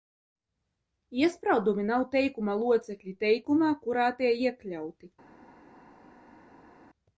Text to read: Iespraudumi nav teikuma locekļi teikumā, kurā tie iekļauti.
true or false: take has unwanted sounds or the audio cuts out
false